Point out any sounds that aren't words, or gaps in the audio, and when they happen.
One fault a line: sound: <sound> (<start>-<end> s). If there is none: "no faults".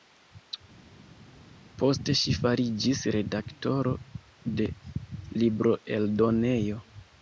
no faults